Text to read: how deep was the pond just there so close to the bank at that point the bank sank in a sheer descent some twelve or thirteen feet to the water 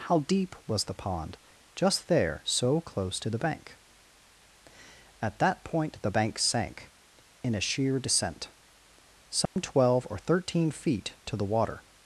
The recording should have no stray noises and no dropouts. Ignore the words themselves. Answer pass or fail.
fail